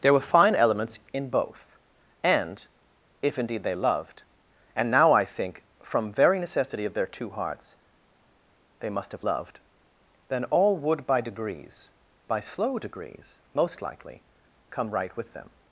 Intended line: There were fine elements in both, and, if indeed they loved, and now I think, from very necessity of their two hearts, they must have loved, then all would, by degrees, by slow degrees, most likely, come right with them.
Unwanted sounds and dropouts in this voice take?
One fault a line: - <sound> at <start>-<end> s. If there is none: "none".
none